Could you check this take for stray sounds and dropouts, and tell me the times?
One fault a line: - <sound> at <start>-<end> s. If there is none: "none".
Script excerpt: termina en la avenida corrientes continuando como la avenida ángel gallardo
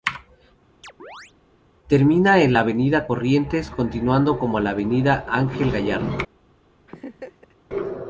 - chirp at 0.8-1.3 s
- laugh at 6.9-7.6 s